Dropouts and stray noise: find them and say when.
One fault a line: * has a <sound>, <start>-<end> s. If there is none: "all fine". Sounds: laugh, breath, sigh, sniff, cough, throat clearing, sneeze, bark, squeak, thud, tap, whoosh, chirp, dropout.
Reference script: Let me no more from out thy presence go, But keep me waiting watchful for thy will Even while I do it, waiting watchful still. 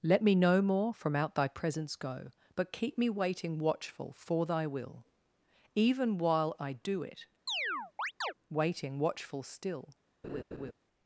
* has a chirp, 7.5-8.3 s
* has a laugh, 10.2-10.7 s